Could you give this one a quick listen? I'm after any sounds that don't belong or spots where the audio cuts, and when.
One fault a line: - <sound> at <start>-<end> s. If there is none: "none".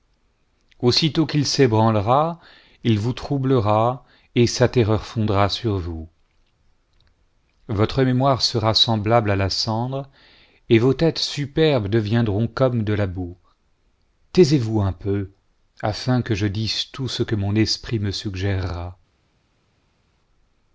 none